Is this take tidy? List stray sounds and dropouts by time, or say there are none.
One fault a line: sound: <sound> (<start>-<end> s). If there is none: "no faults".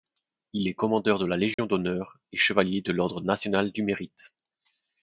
sound: dropout (1.5-1.6 s)